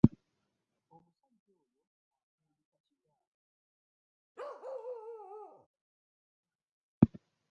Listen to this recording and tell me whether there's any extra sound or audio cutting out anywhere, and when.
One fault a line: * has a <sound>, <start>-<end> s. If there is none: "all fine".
* has a bark, 4.4-5.7 s